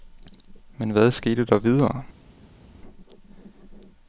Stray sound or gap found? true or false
false